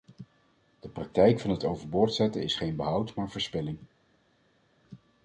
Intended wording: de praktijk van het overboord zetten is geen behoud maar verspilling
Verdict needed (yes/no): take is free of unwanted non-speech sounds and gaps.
yes